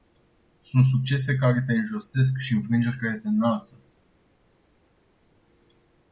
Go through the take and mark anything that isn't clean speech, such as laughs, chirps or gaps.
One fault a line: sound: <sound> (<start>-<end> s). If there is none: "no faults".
no faults